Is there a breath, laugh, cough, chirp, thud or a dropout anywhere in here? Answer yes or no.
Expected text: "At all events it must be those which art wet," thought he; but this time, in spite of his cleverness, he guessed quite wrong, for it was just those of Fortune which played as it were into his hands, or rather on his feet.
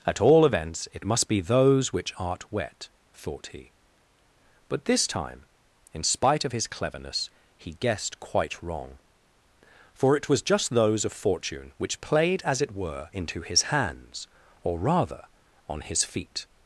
no